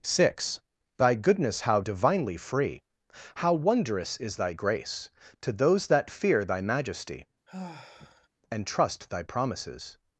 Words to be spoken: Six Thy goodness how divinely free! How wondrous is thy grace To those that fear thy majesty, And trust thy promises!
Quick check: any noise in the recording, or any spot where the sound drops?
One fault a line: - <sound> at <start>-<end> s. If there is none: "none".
- sigh at 7.5-8.3 s